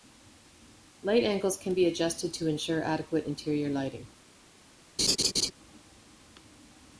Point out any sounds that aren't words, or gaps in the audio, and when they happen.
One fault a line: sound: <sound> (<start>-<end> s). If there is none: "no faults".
sound: laugh (5.0-5.5 s)